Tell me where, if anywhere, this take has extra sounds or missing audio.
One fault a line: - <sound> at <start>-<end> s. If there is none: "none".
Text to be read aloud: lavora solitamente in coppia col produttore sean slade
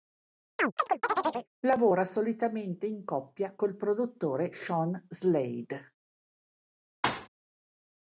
- chirp at 0.6-1.5 s
- thud at 7.0-7.3 s